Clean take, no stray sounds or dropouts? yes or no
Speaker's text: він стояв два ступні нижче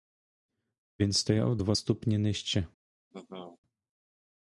no